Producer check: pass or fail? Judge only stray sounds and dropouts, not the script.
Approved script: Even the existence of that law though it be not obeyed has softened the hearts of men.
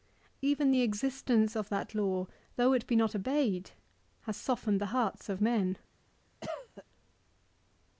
fail